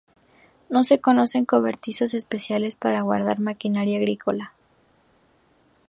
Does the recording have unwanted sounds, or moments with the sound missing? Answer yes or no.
no